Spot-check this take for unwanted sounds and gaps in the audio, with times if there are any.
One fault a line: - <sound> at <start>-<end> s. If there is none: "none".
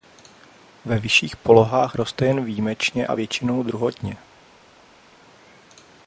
none